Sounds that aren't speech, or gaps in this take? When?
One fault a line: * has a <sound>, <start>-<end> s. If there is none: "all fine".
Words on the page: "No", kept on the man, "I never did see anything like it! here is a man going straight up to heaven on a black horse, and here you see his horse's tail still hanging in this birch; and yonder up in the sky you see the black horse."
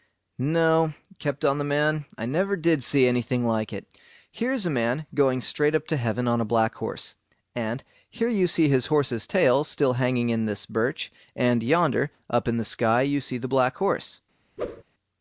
* has a whoosh, 14.6-14.8 s